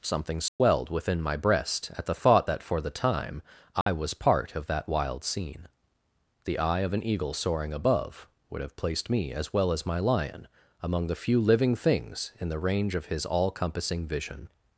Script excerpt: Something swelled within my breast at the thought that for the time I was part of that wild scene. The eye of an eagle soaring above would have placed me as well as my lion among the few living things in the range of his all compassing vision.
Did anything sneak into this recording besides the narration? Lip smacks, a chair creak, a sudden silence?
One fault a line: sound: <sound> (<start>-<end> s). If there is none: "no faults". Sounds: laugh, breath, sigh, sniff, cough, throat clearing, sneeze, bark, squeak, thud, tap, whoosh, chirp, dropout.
sound: dropout (0.5-0.6 s)
sound: dropout (3.8-3.9 s)